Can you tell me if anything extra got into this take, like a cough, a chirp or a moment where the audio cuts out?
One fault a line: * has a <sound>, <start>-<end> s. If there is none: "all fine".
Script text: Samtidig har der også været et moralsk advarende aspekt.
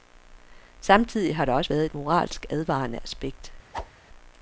* has a whoosh, 3.7-3.9 s